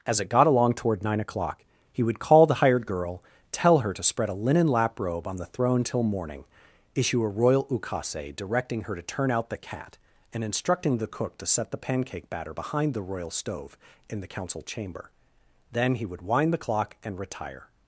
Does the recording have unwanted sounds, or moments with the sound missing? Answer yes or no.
no